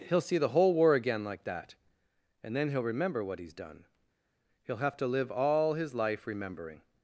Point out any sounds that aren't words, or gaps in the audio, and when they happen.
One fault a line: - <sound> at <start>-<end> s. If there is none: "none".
none